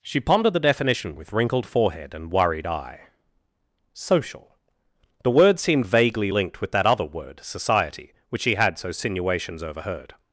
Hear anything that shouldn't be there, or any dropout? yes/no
no